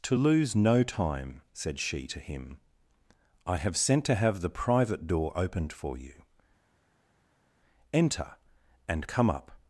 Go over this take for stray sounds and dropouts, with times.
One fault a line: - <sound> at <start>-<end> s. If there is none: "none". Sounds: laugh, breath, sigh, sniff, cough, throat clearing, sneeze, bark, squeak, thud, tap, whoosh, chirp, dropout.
none